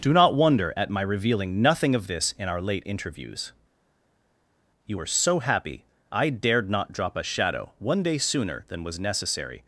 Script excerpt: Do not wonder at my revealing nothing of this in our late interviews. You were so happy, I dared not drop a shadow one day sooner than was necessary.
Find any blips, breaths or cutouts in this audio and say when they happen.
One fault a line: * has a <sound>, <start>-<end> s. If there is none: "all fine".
all fine